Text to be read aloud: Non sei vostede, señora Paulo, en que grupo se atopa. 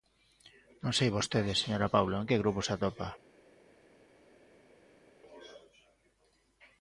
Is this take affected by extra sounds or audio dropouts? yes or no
no